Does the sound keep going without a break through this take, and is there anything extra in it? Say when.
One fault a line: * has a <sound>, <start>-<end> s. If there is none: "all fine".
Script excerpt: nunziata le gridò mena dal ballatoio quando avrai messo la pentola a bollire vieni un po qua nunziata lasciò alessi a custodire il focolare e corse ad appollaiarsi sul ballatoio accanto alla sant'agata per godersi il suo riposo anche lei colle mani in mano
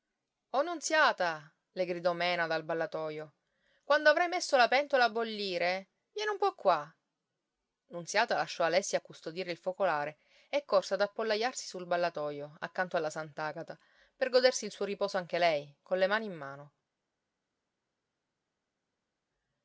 all fine